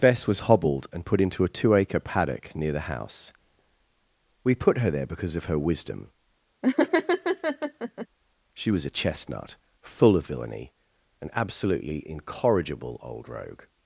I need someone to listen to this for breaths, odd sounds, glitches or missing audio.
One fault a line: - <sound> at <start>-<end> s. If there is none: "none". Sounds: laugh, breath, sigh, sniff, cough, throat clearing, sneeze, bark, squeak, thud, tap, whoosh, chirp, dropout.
- laugh at 6.6-8.1 s